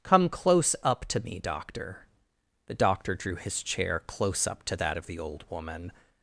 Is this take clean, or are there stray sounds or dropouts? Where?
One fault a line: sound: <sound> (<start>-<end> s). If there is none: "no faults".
no faults